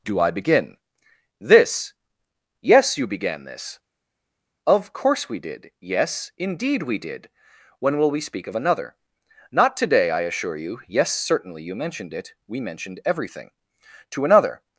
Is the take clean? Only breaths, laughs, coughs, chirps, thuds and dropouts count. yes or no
yes